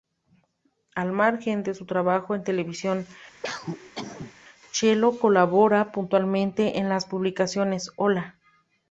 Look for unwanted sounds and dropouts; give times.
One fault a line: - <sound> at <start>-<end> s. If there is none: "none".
- cough at 3.4-4.3 s